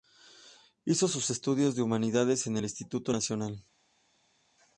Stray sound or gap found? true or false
false